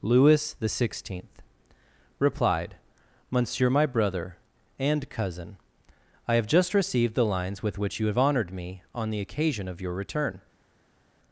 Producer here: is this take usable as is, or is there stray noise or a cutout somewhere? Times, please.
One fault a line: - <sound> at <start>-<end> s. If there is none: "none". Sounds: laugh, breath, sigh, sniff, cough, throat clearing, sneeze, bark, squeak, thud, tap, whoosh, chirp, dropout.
none